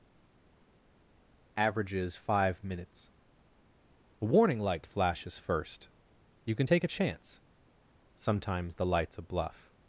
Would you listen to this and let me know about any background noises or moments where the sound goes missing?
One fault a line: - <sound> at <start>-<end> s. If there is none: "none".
none